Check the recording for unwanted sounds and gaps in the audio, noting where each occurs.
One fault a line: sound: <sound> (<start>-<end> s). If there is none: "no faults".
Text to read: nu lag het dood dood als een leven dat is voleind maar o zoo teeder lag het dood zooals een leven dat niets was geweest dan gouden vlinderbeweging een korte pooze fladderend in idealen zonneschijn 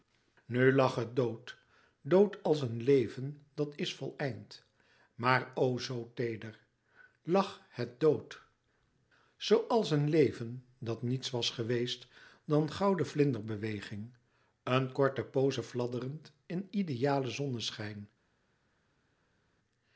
no faults